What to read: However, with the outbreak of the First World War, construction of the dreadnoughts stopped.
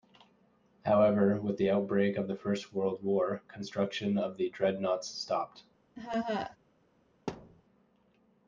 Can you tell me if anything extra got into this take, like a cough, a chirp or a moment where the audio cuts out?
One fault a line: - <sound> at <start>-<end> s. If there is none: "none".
- laugh at 6.0-6.6 s
- thud at 7.3-7.6 s